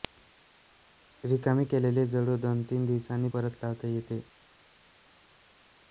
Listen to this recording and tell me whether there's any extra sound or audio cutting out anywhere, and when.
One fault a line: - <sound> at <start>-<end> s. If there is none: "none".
none